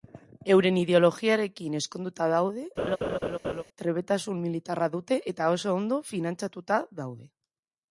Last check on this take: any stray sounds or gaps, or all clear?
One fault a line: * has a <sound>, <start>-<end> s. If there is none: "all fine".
* has a laugh, 2.8-3.6 s